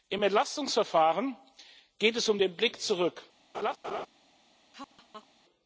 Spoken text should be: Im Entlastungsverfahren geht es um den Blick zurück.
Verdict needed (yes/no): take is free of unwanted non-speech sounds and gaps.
no